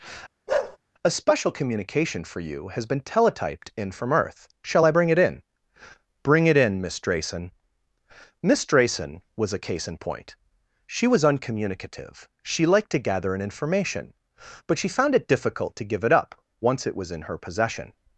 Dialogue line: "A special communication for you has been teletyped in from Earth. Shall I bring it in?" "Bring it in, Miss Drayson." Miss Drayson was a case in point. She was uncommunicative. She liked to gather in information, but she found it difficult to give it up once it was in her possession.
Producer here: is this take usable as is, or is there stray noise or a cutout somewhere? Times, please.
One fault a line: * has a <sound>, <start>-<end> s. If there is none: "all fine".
* has a bark, 0.5-0.8 s